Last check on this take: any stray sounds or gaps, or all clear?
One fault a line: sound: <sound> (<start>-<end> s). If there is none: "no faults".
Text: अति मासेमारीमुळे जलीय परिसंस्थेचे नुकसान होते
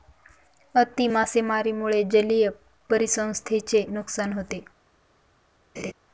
sound: laugh (5.8-5.9 s)